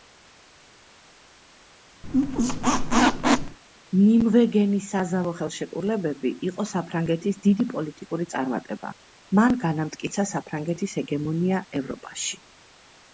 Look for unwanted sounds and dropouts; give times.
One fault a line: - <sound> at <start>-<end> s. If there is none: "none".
- squeak at 2.0-3.6 s